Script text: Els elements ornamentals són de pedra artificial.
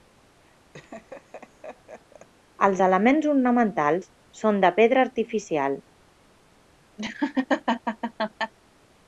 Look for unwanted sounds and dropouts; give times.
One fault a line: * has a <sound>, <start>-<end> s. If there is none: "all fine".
* has a laugh, 0.7-2.3 s
* has a laugh, 7.0-8.5 s